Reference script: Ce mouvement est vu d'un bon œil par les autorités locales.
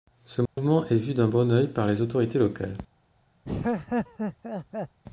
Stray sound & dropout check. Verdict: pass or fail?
fail